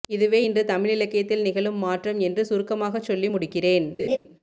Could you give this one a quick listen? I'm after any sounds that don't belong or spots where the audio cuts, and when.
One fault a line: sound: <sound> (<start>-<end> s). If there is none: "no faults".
sound: laugh (4.0-4.2 s)